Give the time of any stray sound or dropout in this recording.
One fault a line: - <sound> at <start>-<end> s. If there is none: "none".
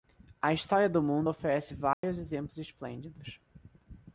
- dropout at 1.9-2.0 s